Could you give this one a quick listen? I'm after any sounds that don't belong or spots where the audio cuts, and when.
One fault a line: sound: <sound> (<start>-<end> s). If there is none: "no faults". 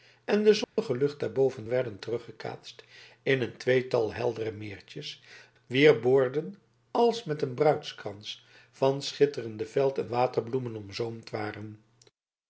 sound: dropout (0.6-0.8 s)